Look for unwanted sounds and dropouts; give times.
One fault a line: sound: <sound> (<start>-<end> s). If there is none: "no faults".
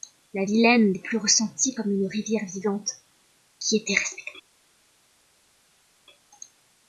no faults